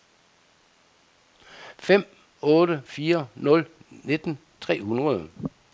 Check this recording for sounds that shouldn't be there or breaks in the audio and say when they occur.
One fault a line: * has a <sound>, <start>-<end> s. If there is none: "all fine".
all fine